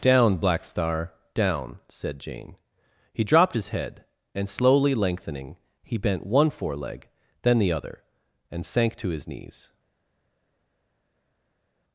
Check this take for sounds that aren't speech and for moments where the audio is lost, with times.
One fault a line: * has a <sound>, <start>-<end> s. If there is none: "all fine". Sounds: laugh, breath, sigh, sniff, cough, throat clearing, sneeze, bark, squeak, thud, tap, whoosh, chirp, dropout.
all fine